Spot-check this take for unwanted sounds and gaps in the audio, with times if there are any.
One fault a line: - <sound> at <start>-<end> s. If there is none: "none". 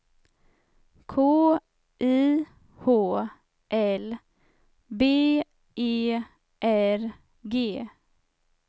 none